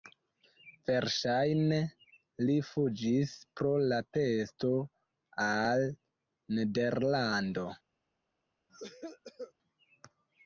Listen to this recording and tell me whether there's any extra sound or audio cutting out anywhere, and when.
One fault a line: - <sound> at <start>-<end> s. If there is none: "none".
- cough at 8.7-9.5 s